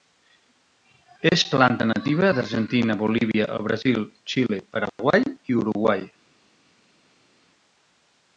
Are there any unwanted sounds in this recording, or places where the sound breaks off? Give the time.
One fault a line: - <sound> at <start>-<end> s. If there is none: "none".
none